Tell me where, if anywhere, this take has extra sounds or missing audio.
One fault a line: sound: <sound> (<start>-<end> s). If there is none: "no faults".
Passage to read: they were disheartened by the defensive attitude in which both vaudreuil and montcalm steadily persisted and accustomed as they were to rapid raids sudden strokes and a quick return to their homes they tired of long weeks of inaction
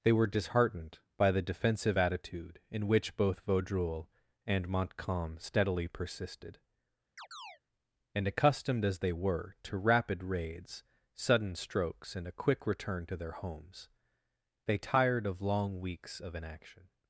sound: chirp (7.2-7.6 s)